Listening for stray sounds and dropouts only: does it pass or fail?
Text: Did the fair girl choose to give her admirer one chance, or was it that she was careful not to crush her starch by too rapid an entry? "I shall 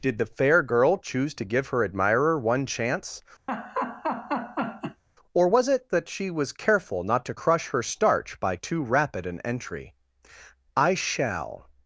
fail